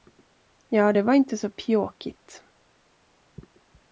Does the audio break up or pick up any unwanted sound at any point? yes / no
no